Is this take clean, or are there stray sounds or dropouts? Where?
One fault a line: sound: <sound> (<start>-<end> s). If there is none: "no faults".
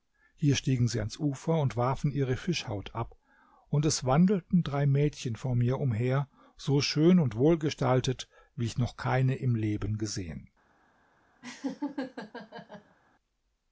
sound: laugh (11.4-13.0 s)